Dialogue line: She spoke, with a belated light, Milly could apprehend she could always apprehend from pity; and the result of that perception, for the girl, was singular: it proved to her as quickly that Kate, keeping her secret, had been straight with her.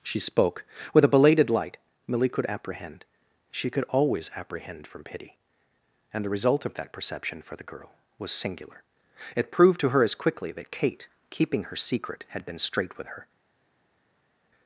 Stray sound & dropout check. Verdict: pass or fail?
pass